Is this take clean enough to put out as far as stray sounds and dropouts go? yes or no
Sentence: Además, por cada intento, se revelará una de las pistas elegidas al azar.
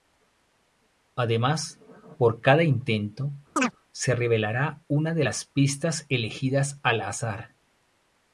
no